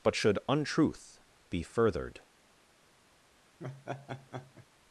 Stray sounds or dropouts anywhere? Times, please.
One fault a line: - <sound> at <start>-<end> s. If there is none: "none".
- laugh at 3.6-4.7 s